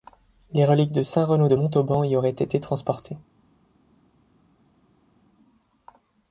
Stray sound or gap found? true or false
false